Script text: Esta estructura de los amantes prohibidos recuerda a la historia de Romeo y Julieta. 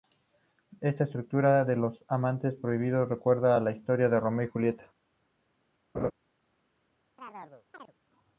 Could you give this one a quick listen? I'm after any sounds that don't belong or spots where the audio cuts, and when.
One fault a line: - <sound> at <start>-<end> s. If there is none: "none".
- laugh at 5.9-6.1 s
- chirp at 7.2-7.9 s